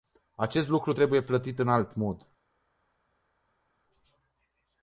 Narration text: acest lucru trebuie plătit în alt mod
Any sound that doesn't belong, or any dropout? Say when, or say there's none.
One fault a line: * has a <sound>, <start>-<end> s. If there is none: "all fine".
all fine